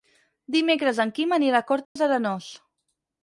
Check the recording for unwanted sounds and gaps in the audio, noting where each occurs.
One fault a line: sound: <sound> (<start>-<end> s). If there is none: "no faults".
sound: dropout (1.8-2.0 s)